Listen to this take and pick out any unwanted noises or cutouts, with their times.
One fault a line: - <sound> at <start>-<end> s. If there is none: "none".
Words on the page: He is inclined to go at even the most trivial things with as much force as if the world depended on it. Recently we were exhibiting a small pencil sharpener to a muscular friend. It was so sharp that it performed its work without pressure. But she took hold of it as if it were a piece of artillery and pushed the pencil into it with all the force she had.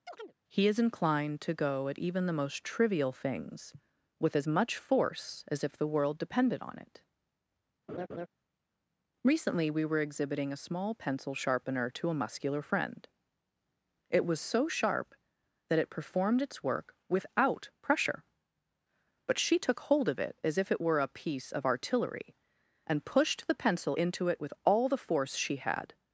- chirp at 0.1-0.4 s
- laugh at 7.9-8.3 s